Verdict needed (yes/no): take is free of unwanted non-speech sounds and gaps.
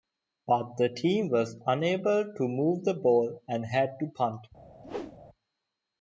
no